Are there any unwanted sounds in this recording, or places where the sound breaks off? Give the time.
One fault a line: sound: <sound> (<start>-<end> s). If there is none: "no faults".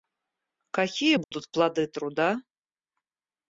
sound: dropout (1.2-1.3 s)